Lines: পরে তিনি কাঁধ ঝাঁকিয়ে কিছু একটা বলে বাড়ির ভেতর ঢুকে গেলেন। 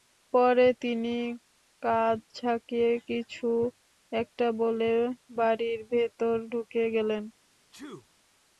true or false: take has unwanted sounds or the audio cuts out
true